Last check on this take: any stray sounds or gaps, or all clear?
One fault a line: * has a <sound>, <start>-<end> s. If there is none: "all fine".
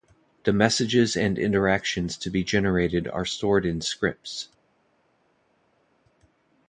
all fine